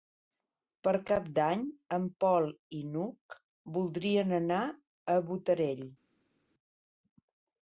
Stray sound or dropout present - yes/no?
no